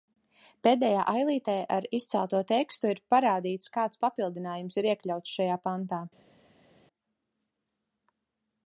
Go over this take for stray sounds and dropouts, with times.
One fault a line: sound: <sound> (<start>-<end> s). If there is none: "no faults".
no faults